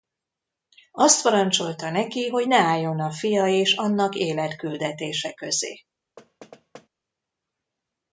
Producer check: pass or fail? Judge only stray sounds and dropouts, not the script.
fail